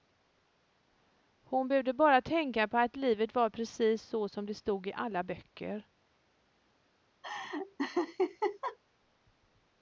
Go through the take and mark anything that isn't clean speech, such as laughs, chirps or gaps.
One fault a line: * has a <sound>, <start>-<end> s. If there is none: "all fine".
* has a laugh, 7.2-8.8 s